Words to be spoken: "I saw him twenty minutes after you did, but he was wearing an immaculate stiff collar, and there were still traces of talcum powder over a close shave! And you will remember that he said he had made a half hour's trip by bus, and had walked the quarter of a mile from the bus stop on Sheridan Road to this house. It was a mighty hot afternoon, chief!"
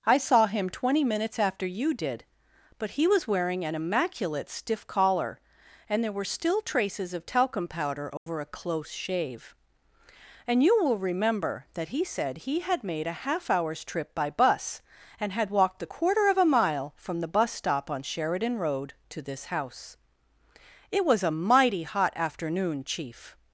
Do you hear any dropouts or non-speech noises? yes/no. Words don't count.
yes